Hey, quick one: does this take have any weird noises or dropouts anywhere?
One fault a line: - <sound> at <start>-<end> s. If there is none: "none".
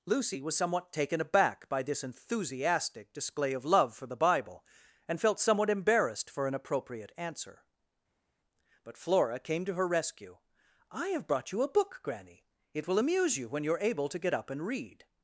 none